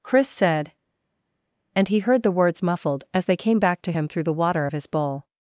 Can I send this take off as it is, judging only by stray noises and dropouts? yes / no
yes